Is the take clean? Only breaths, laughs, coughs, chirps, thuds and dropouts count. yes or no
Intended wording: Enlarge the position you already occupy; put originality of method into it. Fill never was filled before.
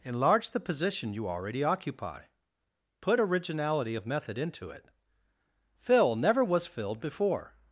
yes